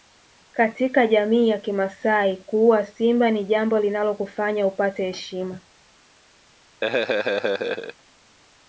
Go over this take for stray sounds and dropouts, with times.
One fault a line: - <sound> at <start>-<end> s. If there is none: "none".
- laugh at 6.8-8.0 s